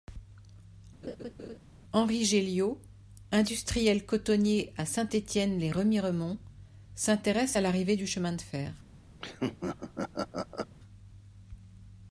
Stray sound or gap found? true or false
true